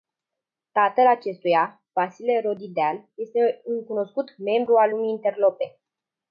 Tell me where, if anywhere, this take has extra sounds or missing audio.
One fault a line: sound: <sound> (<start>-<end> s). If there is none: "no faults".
no faults